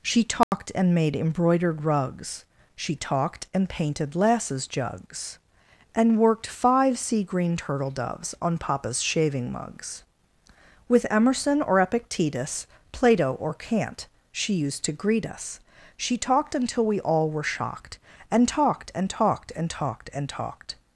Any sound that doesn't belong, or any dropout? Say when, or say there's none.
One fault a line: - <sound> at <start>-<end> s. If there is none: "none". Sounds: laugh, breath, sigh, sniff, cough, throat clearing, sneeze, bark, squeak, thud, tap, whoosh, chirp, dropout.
- dropout at 0.4-0.5 s